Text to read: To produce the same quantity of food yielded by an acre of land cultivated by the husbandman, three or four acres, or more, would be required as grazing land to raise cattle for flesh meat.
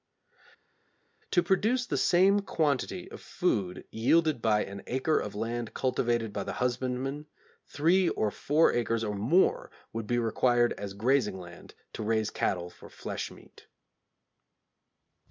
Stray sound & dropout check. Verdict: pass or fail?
pass